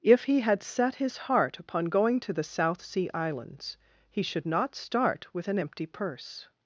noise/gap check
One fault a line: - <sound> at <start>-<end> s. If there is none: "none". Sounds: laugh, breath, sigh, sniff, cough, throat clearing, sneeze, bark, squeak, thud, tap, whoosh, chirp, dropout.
none